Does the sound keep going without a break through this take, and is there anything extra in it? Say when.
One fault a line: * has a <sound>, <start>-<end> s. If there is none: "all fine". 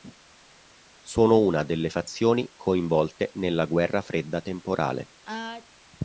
* has a sneeze, 5.2-5.7 s